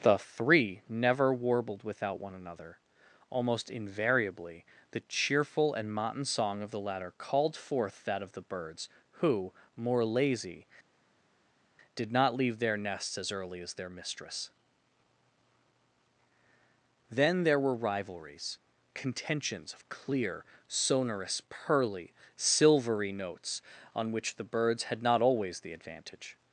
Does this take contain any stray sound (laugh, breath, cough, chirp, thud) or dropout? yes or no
no